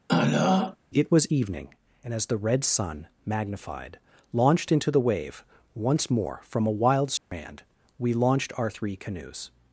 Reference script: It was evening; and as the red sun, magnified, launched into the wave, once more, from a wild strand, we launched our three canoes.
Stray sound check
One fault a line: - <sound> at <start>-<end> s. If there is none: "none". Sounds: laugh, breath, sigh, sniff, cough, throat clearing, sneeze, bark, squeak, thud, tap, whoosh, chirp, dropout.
- throat clearing at 0.1-0.8 s
- dropout at 7.2-7.3 s